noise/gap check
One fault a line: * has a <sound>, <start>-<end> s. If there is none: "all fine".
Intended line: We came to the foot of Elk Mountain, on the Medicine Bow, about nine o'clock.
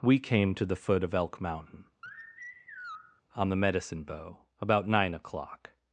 * has a sigh, 2.0-3.2 s